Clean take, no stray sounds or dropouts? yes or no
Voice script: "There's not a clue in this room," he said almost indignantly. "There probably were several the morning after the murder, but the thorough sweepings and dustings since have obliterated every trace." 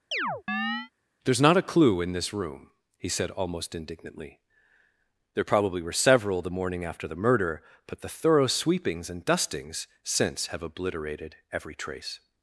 no